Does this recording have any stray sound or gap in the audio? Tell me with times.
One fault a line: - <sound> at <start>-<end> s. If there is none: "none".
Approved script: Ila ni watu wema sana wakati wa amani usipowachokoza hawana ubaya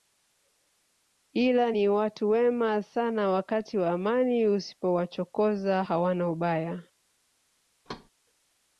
- thud at 7.8-8.1 s